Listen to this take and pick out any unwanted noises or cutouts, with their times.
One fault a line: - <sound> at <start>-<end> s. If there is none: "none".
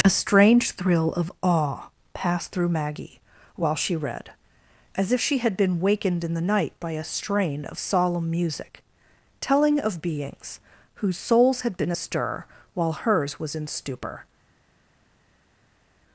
none